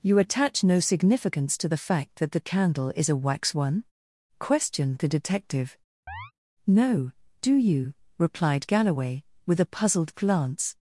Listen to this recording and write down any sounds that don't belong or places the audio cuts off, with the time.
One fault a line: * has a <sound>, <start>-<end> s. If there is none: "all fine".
* has a chirp, 6.1-6.3 s